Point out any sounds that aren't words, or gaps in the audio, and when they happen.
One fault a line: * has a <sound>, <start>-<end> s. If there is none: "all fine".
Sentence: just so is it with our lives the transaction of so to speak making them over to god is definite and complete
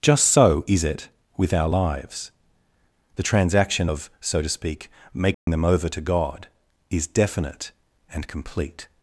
* has a dropout, 5.3-5.5 s